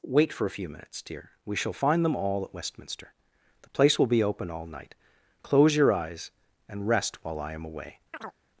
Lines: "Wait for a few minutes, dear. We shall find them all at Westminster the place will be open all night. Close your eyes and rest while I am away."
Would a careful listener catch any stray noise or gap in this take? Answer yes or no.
yes